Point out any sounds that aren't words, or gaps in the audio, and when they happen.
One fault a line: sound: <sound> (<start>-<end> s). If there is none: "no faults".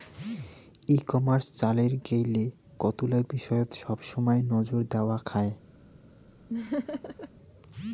sound: laugh (6.5-7.3 s)